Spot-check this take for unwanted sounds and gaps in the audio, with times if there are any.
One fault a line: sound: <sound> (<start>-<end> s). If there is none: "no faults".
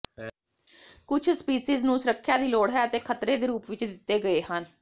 no faults